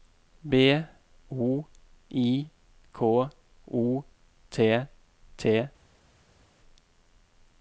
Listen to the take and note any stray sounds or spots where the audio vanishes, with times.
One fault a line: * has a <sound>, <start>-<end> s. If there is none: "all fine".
all fine